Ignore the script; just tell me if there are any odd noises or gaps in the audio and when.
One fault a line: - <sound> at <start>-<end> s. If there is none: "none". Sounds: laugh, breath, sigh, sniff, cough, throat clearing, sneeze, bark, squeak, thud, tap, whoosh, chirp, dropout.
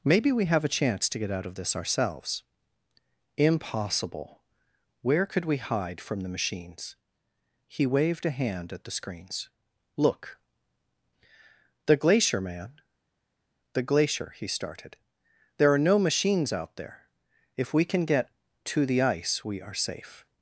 none